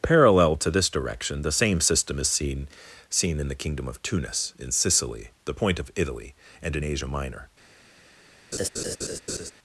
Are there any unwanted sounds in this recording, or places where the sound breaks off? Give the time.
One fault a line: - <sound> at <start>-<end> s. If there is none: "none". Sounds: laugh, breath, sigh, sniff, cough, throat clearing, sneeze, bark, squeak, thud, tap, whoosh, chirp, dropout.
- laugh at 8.5-9.5 s